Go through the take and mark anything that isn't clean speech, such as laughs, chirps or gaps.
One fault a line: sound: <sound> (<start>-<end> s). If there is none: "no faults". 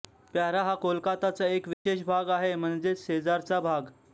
sound: dropout (1.7-1.9 s)